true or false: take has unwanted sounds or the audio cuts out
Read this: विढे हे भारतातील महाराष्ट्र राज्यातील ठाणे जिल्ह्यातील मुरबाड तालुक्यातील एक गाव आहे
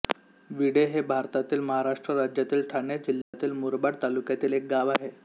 true